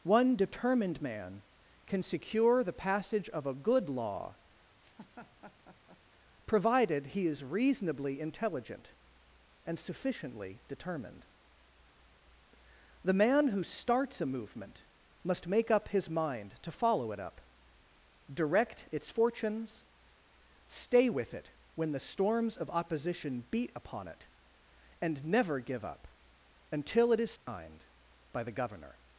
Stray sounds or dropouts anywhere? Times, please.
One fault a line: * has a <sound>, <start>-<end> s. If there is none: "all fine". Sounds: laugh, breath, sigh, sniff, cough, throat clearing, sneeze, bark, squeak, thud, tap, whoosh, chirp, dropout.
* has a laugh, 4.8-6.0 s
* has a dropout, 27.4-27.5 s